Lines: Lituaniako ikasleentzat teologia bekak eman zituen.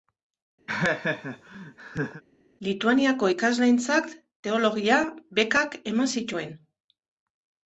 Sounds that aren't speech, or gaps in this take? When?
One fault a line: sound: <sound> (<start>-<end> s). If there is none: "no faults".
sound: laugh (0.7-2.2 s)